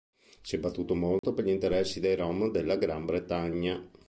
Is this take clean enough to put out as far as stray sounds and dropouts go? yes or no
no